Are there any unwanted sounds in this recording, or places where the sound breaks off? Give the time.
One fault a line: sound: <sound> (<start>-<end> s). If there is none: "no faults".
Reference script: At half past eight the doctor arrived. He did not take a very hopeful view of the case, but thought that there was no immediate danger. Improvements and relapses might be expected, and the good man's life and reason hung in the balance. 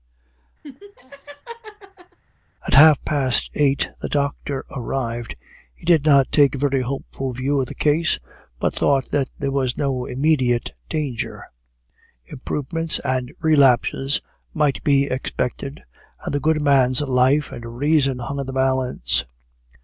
sound: laugh (0.6-2.2 s)